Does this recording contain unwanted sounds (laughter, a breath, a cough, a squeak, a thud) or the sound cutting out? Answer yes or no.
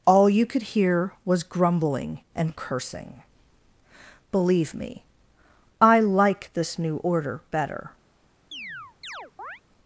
yes